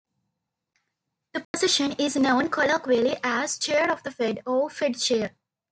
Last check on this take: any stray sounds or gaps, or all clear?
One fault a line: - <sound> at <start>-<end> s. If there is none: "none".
- dropout at 1.4-1.5 s